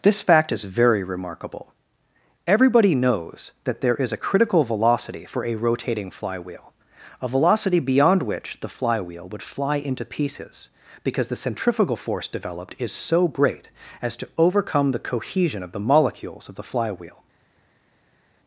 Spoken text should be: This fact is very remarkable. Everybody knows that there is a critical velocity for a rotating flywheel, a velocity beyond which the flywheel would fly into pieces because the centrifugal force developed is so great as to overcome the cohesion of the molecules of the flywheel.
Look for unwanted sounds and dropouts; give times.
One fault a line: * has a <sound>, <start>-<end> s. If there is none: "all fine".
all fine